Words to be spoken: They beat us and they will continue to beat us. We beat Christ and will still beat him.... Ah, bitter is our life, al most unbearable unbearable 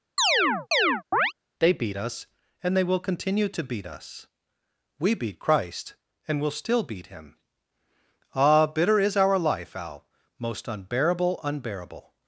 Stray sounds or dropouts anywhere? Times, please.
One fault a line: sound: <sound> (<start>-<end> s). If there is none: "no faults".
sound: chirp (0.2-1.3 s)